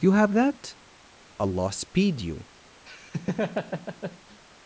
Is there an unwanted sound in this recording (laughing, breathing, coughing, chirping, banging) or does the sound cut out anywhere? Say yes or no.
yes